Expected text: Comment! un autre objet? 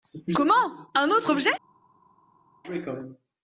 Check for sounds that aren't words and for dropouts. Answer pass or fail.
pass